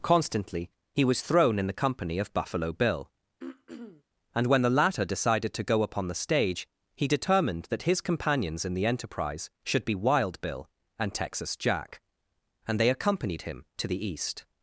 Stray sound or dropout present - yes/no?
yes